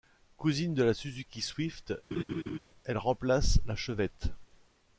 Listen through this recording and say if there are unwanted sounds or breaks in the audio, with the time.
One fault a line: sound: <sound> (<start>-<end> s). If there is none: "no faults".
sound: laugh (2.1-2.6 s)